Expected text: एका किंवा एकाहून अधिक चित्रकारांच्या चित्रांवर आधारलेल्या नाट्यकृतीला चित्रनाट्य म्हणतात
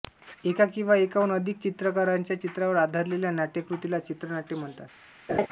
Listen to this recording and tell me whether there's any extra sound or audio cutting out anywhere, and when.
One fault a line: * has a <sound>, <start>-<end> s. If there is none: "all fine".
* has a laugh, 5.3-5.5 s